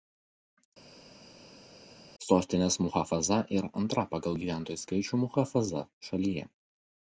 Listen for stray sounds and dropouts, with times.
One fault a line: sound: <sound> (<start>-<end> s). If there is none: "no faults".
no faults